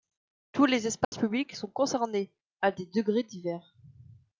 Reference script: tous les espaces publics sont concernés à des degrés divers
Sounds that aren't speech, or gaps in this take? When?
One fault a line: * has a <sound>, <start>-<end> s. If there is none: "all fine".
* has a dropout, 1.0-1.1 s